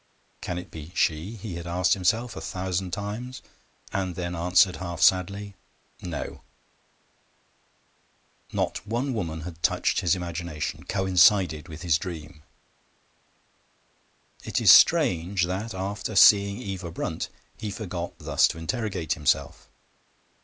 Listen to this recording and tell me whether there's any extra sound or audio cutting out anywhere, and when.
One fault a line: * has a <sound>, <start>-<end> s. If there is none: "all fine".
all fine